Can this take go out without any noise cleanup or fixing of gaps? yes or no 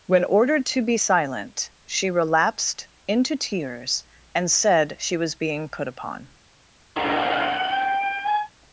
no